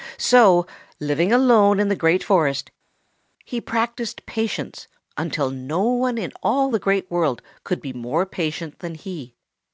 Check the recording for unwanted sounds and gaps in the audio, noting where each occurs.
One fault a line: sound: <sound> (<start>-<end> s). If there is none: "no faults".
no faults